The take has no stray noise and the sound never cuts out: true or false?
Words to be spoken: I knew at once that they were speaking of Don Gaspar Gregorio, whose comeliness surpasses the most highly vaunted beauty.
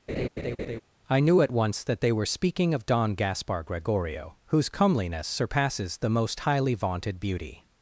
false